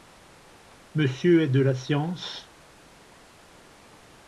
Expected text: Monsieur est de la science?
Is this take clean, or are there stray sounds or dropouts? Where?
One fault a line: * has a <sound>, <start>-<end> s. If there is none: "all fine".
all fine